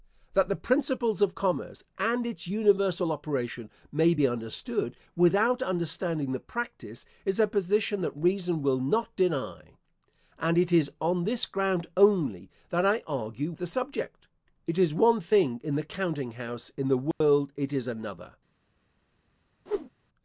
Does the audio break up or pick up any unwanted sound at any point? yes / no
yes